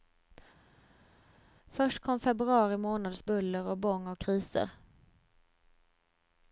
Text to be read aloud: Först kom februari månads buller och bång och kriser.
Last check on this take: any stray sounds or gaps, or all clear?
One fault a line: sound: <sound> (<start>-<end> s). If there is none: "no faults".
no faults